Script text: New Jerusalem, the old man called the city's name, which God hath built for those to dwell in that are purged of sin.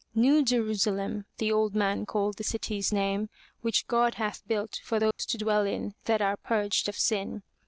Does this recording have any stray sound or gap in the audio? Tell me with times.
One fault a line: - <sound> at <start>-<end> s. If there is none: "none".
- dropout at 5.1-5.2 s